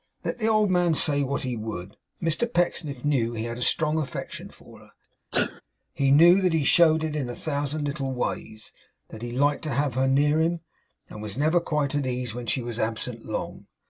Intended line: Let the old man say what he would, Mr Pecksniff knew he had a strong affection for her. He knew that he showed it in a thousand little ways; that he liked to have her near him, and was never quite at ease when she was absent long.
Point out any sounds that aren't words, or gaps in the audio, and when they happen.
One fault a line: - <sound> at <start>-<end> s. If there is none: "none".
- sneeze at 5.3-5.6 s